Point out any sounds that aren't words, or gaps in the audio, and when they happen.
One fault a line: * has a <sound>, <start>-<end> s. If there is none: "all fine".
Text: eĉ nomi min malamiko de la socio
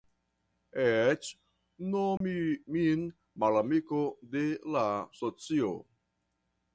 * has a dropout, 2.2-2.2 s